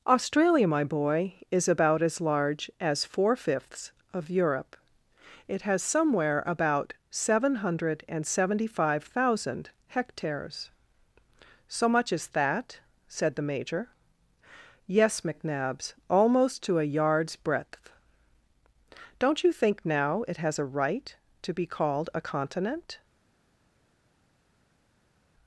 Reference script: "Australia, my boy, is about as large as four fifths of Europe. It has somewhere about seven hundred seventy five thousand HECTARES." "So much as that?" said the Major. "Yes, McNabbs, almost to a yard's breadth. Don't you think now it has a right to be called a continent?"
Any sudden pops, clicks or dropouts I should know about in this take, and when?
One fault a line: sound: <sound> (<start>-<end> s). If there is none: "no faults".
no faults